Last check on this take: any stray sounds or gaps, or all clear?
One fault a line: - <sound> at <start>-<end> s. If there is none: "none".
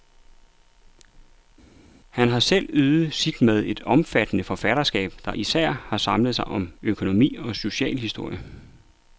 none